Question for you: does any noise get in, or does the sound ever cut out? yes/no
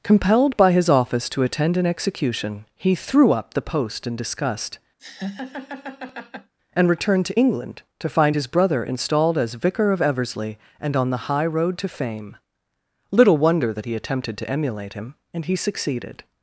yes